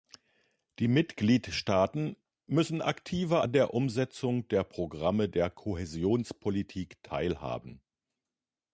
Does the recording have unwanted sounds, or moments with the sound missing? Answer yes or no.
no